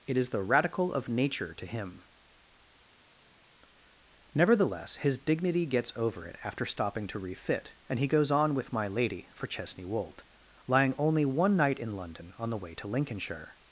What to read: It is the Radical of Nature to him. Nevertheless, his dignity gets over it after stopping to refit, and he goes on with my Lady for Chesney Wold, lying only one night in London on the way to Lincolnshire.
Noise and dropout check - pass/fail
pass